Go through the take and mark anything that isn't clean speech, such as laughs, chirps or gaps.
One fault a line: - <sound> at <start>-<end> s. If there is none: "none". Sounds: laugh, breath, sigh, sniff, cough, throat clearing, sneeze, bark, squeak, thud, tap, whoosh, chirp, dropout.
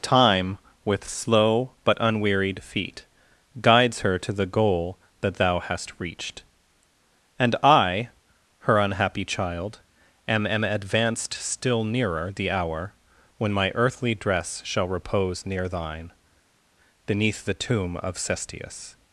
none